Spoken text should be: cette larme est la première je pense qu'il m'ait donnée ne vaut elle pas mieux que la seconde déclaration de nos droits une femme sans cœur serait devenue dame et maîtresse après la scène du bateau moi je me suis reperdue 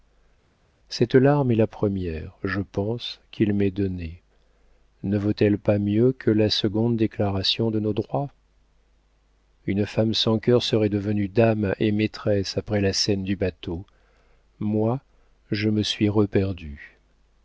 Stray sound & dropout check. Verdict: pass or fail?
pass